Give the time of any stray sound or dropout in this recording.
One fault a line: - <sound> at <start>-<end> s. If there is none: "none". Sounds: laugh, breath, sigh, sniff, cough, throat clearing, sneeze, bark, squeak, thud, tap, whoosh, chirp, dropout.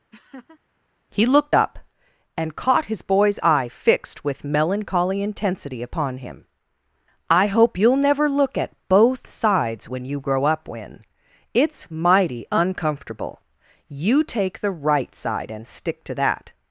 - laugh at 0.1-0.6 s